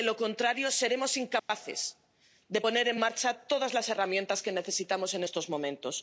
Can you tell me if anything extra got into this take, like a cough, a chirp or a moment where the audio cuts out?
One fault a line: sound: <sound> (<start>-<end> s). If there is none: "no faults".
sound: dropout (1.4-1.5 s)